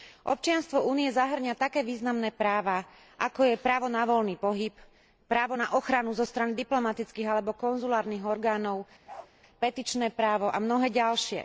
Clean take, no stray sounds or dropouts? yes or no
no